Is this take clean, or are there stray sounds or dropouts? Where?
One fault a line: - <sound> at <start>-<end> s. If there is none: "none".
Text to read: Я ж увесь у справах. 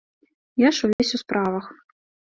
- dropout at 0.9-1.0 s